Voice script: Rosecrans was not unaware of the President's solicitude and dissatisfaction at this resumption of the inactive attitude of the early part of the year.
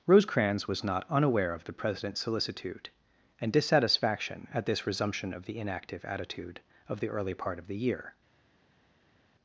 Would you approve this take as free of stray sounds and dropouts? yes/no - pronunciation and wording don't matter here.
yes